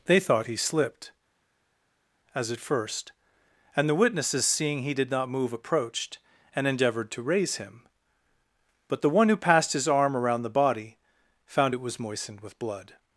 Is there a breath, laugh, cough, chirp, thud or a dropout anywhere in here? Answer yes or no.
no